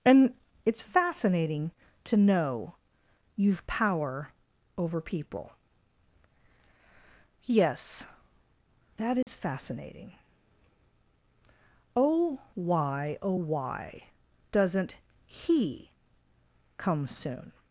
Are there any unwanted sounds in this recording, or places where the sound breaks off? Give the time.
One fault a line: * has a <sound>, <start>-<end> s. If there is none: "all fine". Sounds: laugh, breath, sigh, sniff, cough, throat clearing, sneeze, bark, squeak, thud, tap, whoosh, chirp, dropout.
* has a dropout, 9.2-9.3 s